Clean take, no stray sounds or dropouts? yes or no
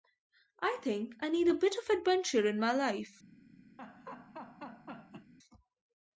no